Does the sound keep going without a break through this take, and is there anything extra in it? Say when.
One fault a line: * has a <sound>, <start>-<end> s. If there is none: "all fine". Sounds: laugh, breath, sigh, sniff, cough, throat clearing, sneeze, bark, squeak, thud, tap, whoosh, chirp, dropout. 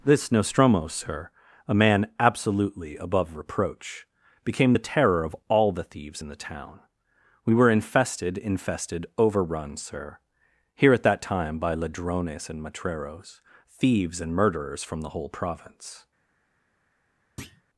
* has a thud, 17.4-17.6 s